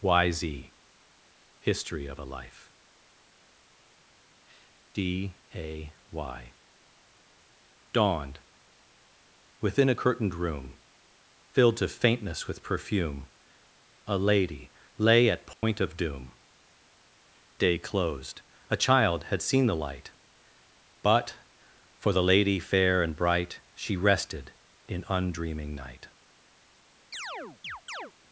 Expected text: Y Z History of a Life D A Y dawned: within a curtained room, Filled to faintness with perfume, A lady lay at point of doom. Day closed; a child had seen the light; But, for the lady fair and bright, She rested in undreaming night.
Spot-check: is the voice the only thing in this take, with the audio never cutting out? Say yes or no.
no